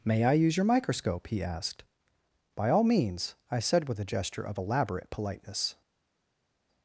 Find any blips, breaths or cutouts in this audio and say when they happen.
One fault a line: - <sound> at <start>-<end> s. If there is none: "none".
none